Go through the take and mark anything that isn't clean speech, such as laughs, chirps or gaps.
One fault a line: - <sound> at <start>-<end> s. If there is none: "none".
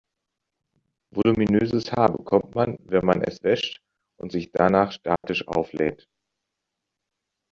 - dropout at 5.2-5.2 s